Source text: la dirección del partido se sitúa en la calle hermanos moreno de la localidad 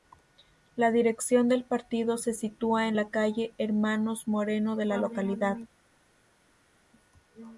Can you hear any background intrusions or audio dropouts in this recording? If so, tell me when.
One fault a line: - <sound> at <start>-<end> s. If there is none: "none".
none